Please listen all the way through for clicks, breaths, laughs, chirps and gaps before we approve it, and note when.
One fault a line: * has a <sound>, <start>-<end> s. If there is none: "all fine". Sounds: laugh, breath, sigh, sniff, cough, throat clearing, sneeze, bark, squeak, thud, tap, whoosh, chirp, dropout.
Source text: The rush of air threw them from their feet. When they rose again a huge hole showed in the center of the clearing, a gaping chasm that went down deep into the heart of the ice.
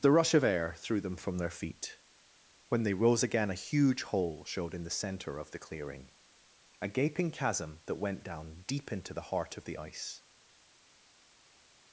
all fine